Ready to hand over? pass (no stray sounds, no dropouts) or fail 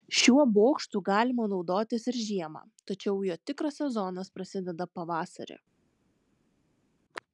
pass